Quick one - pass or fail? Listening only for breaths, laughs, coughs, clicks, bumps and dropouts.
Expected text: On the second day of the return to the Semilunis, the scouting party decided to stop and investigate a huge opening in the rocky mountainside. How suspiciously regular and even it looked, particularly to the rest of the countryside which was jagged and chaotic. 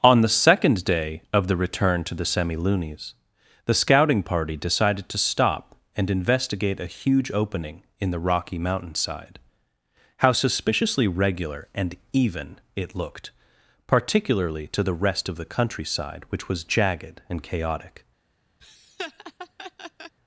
fail